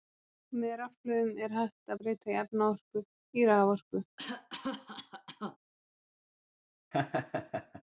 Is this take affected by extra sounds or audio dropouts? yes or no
yes